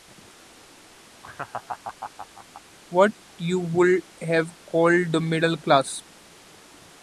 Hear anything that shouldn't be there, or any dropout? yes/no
yes